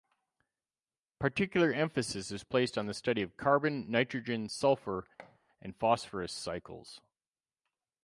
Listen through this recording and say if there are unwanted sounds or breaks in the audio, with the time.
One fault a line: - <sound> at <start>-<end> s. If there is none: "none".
- thud at 5.2-5.4 s